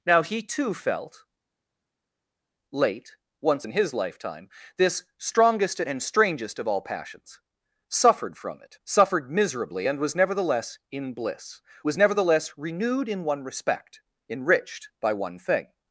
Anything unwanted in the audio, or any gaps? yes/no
no